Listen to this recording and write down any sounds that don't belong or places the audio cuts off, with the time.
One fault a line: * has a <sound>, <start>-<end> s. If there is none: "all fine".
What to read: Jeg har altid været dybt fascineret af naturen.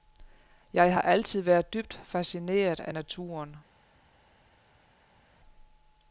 all fine